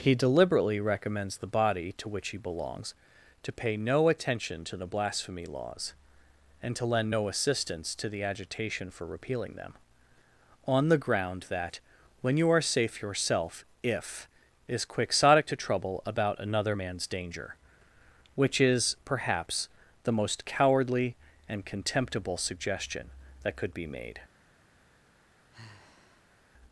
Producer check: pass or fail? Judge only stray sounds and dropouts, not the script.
fail